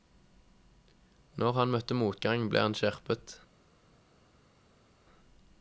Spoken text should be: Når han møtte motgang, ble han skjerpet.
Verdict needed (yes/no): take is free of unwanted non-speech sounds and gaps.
yes